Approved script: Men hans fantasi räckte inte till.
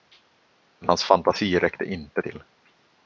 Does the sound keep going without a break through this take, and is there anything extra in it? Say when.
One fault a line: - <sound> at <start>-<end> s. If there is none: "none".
none